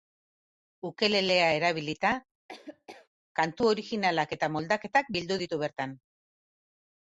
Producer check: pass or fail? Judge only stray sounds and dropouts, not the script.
fail